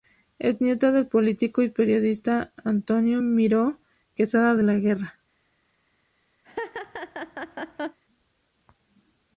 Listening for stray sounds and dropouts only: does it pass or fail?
fail